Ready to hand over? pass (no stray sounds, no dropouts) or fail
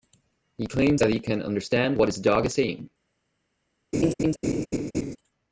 fail